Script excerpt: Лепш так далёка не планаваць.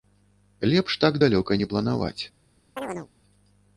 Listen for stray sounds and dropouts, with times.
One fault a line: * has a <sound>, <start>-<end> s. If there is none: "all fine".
* has a chirp, 2.8-3.1 s